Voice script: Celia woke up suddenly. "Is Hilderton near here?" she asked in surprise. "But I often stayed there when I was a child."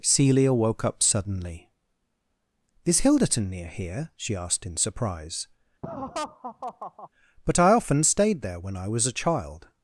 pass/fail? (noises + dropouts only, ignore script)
fail